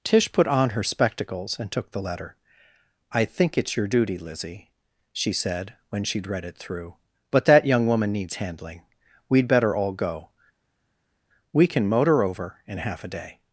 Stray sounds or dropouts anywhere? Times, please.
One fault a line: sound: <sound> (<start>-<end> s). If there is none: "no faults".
no faults